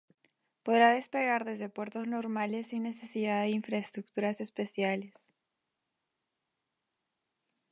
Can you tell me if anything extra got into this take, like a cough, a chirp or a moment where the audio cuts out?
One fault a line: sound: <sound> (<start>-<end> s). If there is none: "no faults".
no faults